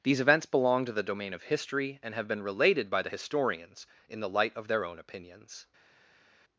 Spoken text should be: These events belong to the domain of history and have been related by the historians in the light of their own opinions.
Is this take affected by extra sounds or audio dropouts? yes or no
no